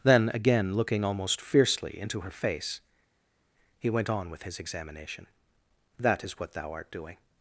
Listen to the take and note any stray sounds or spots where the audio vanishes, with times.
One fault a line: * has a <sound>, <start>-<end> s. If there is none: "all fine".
all fine